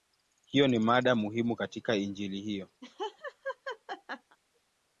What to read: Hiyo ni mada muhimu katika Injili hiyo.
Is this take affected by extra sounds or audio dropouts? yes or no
yes